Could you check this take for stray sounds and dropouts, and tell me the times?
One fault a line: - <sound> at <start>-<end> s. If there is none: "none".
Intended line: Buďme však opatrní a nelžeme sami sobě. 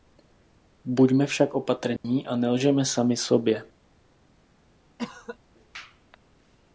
- dropout at 2.0-2.0 s
- cough at 5.0-5.4 s